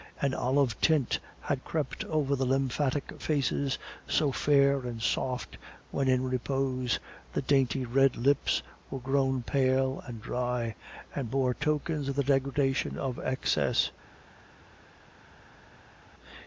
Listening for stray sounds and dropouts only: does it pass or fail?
pass